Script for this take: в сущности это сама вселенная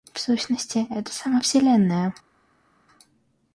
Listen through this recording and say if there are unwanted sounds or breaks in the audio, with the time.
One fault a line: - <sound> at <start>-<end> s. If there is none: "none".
none